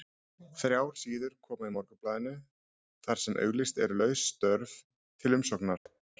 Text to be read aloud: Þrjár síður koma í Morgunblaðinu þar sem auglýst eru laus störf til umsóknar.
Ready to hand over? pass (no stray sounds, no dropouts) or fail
fail